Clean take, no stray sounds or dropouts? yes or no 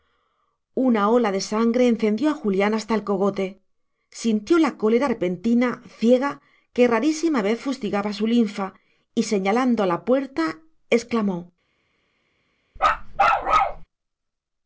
no